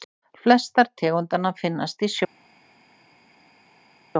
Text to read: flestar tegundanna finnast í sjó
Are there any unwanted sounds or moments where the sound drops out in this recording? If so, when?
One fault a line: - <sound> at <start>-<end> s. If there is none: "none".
none